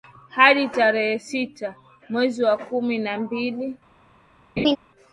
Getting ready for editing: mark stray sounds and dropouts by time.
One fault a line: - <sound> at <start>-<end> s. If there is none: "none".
- laugh at 4.6-4.8 s